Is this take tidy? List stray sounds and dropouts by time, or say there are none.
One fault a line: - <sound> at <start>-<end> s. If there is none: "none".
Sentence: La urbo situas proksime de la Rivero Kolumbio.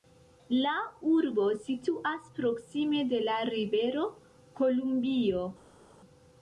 none